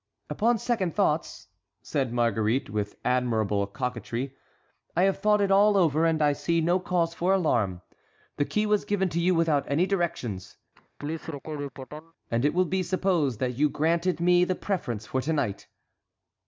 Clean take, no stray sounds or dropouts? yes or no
no